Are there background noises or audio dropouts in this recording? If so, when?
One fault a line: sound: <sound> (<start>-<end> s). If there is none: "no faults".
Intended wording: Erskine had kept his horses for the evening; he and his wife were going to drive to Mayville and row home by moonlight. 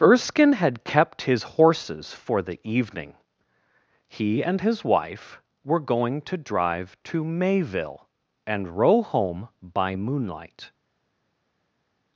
no faults